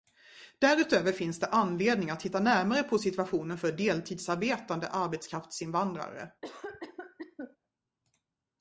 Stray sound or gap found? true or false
true